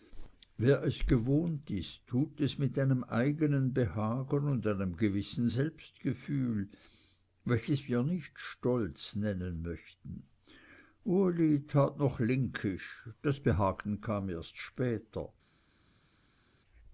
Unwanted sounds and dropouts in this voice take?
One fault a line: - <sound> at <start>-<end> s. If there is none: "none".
none